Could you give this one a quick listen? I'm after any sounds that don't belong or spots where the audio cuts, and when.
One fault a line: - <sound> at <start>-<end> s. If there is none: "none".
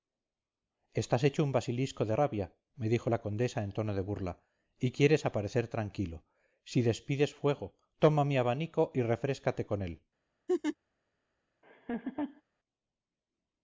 - laugh at 10.5-10.8 s
- laugh at 11.6-12.4 s